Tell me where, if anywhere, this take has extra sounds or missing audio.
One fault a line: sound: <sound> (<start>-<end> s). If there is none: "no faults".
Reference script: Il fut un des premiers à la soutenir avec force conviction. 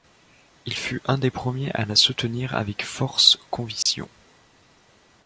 sound: dropout (3.8-3.9 s)